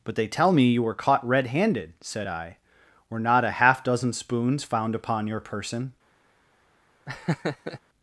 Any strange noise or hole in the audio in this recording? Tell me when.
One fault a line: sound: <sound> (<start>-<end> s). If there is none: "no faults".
sound: laugh (7.1-7.8 s)